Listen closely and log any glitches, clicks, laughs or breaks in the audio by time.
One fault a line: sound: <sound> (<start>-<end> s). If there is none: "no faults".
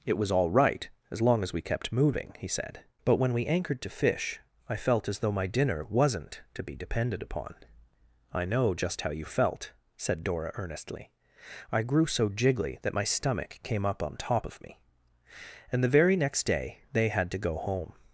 no faults